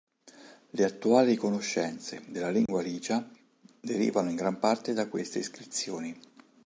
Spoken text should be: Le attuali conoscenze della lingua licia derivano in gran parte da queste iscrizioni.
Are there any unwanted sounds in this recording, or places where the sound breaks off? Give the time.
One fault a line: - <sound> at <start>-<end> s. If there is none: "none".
- dropout at 2.7-2.7 s